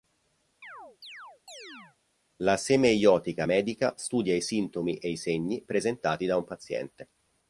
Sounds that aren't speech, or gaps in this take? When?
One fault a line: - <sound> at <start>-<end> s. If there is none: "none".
- chirp at 0.6-2.0 s